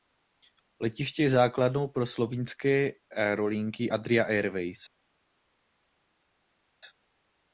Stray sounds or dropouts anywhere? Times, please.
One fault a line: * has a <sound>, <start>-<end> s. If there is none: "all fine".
all fine